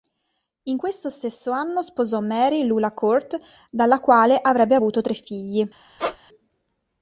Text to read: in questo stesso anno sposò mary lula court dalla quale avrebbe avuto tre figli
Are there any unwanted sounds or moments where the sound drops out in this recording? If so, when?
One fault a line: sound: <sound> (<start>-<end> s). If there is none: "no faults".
sound: squeak (6.0-6.2 s)